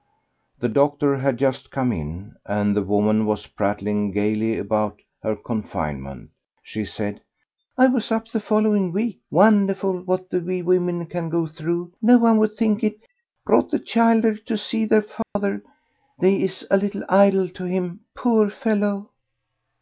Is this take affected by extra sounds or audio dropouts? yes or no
yes